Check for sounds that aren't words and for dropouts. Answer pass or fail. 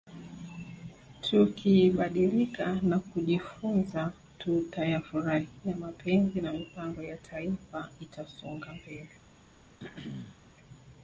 fail